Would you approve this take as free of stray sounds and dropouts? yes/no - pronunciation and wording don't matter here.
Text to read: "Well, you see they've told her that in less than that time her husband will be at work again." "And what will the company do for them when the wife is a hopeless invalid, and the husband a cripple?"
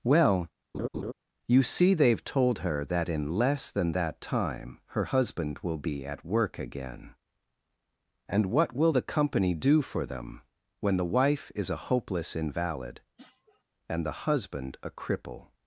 no